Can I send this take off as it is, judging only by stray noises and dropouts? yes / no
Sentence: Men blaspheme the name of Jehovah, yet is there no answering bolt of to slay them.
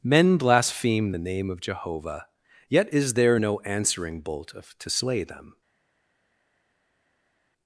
yes